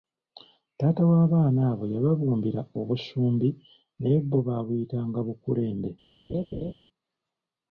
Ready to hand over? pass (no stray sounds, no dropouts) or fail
fail